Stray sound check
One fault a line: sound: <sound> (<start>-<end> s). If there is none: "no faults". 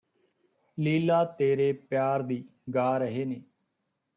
no faults